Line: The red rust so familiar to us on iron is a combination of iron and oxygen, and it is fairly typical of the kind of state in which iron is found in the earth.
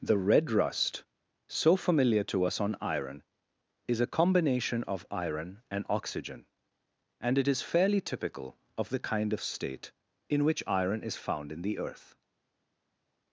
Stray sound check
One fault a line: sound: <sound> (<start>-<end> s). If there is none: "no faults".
no faults